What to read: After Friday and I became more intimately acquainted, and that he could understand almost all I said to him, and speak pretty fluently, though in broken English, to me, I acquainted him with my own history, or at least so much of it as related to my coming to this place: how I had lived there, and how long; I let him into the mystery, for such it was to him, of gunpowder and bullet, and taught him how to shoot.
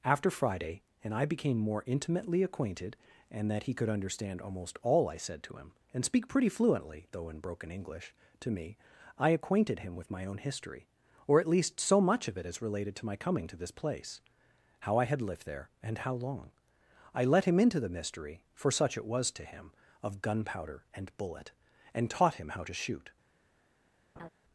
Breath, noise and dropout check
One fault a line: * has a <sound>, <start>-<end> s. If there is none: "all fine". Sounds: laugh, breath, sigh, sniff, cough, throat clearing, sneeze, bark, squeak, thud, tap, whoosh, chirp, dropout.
* has a laugh, 24.2-24.3 s